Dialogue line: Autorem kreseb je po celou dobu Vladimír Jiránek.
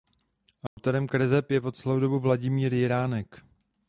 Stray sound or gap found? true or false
true